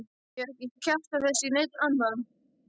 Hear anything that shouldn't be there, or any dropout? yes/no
no